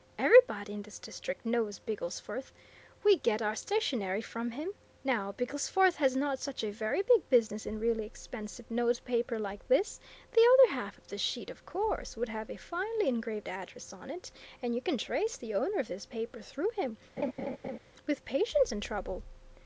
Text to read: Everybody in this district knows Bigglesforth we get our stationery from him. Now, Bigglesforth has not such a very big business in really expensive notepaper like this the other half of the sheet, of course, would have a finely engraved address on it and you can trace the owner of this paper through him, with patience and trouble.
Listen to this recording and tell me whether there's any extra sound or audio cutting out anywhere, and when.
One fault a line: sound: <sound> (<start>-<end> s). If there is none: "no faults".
sound: laugh (17.2-17.8 s)